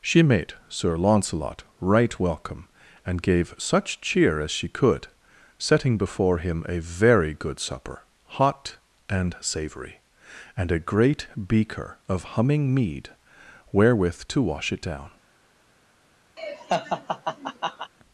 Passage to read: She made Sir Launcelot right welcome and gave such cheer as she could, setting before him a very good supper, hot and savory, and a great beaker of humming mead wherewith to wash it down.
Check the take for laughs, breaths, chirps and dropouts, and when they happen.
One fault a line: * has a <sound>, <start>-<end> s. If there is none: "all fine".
* has a laugh, 16.4-17.9 s